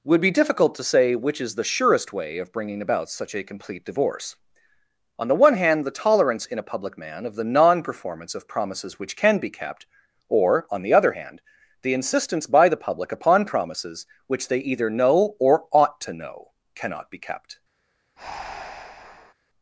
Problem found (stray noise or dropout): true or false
true